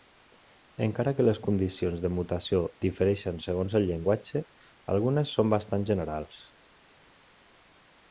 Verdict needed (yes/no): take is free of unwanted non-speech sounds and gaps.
yes